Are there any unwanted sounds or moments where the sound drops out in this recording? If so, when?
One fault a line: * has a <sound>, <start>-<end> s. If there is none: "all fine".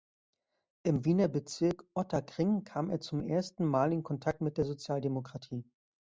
all fine